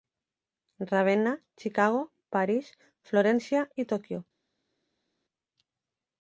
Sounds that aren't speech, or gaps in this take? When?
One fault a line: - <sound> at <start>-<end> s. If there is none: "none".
none